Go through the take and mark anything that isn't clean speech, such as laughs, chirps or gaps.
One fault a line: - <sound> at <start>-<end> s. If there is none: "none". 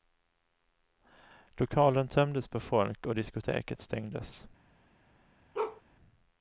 - bark at 5.5-5.8 s